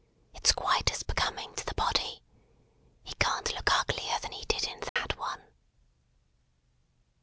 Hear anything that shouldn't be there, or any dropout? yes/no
yes